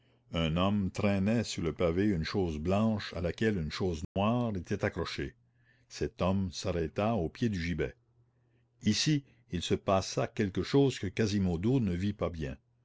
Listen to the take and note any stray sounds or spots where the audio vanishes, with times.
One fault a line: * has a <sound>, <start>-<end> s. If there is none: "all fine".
* has a dropout, 4.0-4.2 s